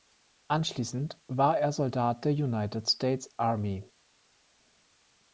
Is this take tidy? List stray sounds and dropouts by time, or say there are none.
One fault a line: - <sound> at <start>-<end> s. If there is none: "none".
none